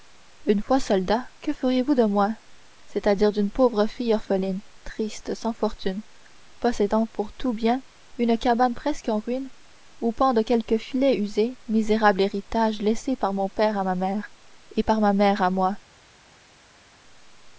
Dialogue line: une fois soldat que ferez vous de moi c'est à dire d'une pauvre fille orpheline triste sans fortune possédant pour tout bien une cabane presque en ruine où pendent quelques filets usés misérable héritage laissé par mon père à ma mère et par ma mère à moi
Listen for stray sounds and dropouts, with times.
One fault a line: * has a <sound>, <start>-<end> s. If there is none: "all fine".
all fine